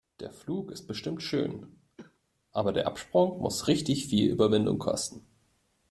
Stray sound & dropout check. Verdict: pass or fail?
fail